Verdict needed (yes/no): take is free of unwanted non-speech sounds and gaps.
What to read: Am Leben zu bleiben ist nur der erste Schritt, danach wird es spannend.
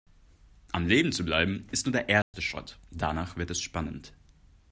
no